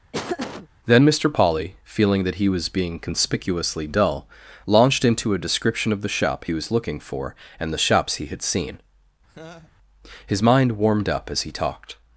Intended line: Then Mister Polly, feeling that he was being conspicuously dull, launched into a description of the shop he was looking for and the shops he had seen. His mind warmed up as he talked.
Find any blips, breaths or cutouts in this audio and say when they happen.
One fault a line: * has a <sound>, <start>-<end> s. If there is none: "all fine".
* has a laugh, 0.1-0.7 s
* has a laugh, 9.3-9.7 s